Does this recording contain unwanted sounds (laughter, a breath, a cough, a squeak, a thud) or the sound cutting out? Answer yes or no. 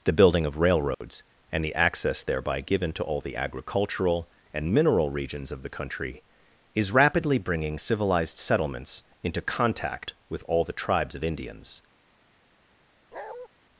yes